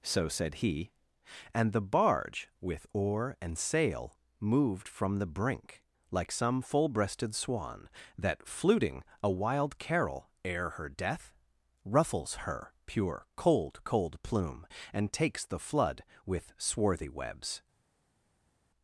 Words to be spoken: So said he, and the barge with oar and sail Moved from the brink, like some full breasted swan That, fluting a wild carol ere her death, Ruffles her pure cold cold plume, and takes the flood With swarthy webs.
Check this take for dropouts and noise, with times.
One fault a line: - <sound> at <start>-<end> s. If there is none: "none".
none